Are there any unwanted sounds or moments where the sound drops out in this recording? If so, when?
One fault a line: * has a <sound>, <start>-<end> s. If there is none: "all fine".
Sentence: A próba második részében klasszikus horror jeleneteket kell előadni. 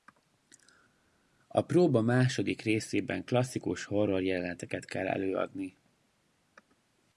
all fine